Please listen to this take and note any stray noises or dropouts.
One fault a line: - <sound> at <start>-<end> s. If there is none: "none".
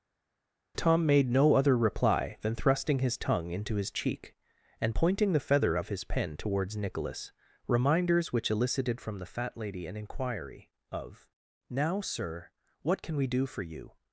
none